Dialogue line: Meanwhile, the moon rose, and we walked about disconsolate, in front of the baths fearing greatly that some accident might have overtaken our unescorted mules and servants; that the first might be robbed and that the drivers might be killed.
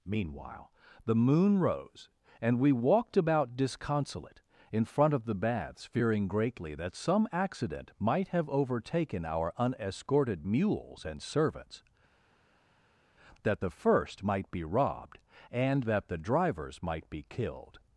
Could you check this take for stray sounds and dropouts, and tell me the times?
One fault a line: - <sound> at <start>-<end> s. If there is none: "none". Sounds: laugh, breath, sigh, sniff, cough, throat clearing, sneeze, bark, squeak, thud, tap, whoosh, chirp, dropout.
none